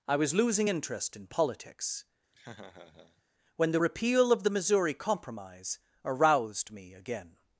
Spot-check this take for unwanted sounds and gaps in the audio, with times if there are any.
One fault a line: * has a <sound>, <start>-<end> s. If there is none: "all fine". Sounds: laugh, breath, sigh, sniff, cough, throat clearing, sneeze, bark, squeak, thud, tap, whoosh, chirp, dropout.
* has a laugh, 2.3-3.2 s